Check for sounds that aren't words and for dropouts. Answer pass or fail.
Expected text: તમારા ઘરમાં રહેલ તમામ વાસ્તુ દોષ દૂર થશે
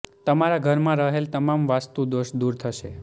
pass